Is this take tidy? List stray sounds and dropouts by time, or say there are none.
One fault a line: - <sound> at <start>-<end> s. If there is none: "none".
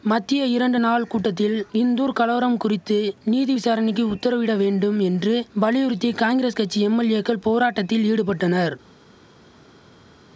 none